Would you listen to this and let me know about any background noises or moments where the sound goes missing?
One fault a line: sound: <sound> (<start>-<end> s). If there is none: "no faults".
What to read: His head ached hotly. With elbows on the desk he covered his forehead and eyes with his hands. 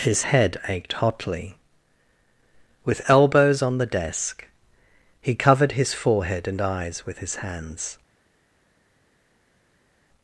no faults